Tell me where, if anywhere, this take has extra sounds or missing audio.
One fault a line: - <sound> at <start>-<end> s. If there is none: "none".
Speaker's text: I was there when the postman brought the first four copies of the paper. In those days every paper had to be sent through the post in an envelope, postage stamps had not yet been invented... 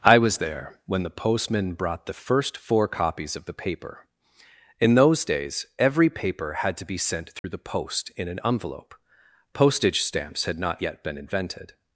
- dropout at 7.4-7.4 s